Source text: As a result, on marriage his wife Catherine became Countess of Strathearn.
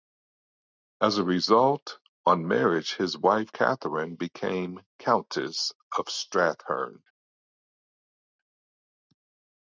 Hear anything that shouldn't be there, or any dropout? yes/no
no